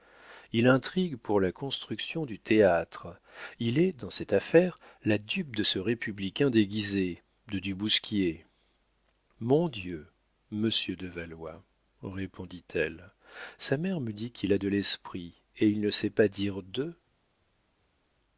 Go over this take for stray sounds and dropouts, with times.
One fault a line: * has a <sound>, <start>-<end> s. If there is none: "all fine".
all fine